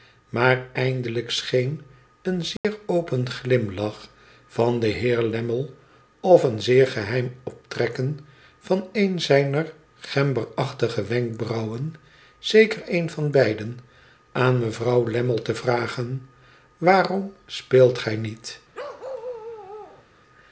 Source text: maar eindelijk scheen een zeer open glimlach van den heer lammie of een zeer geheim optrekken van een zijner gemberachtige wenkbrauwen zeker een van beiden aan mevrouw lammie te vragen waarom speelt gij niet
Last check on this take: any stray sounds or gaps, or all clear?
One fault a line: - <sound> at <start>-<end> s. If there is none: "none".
- dropout at 2.6-2.6 s
- bark at 18.7-20.1 s